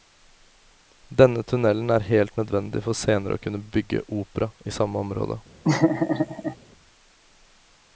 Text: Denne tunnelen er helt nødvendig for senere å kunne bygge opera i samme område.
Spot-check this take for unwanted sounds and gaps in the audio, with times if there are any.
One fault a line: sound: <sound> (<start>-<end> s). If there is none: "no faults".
sound: laugh (5.6-6.6 s)